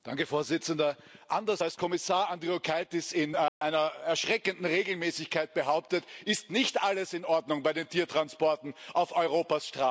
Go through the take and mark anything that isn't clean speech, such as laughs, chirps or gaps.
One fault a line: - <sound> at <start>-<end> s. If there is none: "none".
- dropout at 3.5-3.6 s